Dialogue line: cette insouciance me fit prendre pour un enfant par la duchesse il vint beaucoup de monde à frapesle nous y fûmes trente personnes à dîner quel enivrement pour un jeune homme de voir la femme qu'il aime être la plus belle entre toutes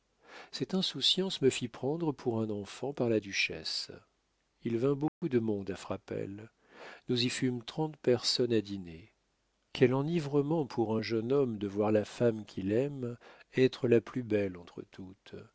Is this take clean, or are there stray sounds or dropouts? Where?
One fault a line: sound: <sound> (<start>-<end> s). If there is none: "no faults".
sound: dropout (5.1-5.2 s)